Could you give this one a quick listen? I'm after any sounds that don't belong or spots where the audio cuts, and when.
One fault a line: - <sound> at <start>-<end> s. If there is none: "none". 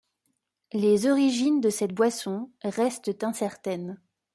none